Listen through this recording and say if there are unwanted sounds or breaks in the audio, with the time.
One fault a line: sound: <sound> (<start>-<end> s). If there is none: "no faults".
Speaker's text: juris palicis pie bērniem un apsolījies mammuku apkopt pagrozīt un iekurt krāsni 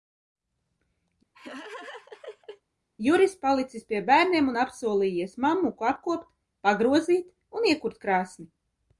sound: laugh (1.3-2.6 s)